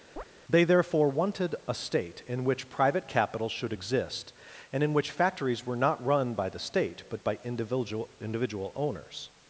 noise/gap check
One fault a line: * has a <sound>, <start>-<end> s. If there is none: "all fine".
* has a chirp, 0.2-0.2 s